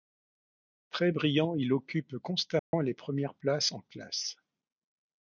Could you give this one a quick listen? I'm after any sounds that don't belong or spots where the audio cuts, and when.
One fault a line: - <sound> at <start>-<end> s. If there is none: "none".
- dropout at 2.6-2.7 s